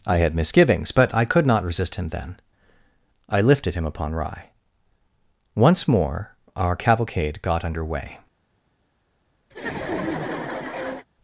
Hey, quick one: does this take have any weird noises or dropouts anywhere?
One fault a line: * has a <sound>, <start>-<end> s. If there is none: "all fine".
* has a laugh, 9.5-11.1 s